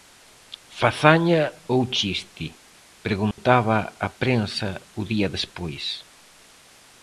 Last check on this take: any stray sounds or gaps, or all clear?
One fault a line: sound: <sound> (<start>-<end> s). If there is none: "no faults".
sound: dropout (3.3-3.4 s)